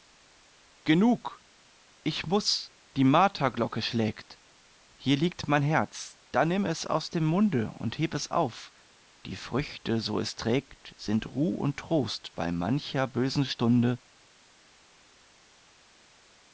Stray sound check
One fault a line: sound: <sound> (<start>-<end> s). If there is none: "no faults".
no faults